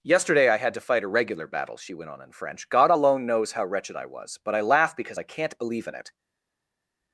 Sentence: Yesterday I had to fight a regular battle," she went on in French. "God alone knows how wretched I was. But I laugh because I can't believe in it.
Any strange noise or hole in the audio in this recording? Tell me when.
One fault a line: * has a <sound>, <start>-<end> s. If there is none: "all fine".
all fine